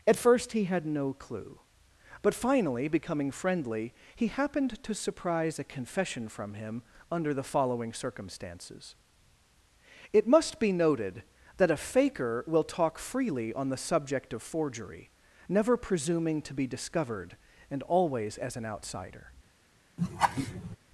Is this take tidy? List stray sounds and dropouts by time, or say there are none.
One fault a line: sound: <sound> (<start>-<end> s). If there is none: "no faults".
sound: laugh (20.0-20.8 s)